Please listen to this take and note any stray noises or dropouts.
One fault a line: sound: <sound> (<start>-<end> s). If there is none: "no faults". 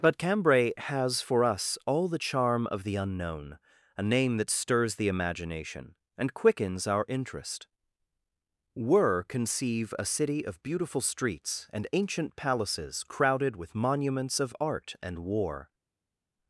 no faults